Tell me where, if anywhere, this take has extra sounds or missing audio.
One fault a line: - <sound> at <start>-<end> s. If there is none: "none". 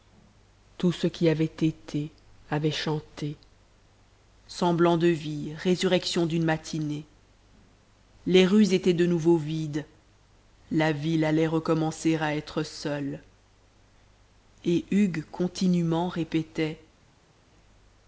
none